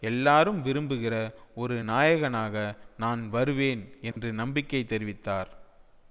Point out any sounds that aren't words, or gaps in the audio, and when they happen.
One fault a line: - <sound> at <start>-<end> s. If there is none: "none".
- dropout at 4.1-4.2 s